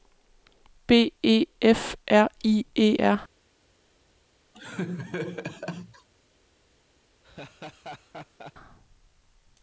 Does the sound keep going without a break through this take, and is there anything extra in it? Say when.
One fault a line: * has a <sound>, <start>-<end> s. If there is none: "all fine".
* has a laugh, 4.5-6.1 s
* has a laugh, 7.2-8.5 s